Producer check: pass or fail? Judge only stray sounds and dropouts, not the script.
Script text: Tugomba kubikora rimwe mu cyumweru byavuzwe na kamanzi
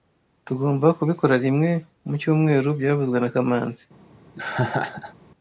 fail